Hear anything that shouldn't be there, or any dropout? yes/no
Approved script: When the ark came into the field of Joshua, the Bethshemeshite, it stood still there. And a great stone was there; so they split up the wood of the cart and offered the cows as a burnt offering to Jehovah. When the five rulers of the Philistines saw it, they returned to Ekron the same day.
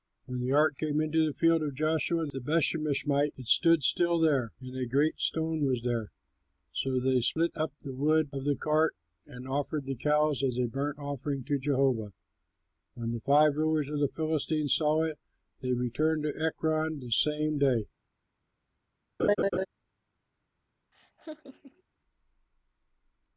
yes